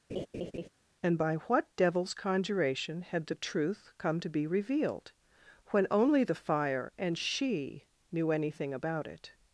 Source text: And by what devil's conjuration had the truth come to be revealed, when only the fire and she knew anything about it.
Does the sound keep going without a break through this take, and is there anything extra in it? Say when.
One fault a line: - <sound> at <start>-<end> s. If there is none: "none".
- laugh at 0.1-0.7 s